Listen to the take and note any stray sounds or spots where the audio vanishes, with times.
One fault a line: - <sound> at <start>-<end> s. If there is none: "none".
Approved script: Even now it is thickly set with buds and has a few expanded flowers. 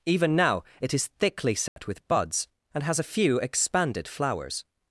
- dropout at 1.7-1.8 s